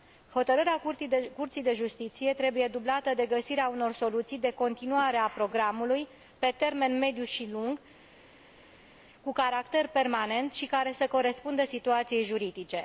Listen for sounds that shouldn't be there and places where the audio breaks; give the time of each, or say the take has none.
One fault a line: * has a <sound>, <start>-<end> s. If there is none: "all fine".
all fine